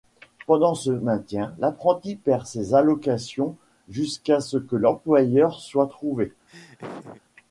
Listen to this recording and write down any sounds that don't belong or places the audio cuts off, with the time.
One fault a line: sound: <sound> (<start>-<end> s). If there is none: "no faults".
sound: laugh (6.5-7.2 s)